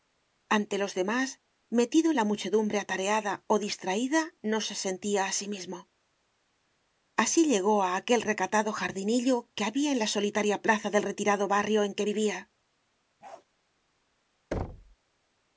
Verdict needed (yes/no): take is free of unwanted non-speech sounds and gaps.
no